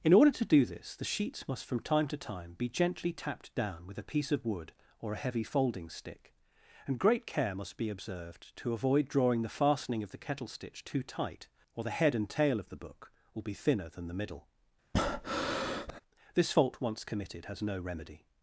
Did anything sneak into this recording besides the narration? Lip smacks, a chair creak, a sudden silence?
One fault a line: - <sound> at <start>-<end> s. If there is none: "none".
- breath at 14.9-16.0 s